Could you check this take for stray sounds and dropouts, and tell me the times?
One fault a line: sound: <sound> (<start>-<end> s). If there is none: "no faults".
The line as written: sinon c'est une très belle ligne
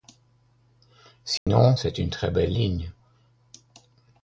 sound: dropout (1.4-1.5 s)